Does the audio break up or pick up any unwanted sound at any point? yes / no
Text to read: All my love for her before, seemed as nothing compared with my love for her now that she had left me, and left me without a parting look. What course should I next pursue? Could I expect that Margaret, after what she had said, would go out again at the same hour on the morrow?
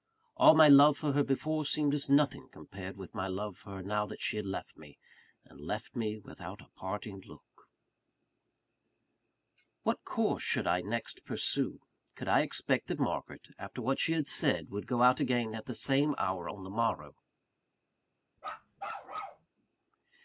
yes